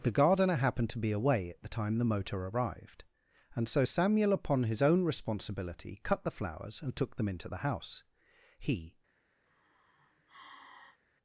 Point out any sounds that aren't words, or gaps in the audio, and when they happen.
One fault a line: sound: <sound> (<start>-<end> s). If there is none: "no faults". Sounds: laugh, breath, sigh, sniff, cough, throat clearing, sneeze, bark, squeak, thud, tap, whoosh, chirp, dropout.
sound: sigh (9.5-11.0 s)